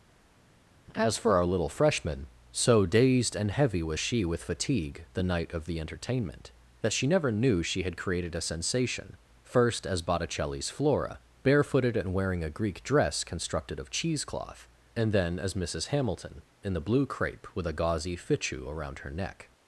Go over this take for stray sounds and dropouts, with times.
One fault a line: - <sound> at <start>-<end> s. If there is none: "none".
none